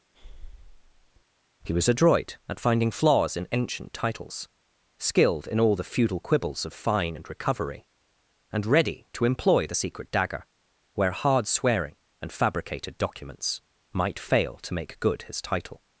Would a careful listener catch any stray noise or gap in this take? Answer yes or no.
yes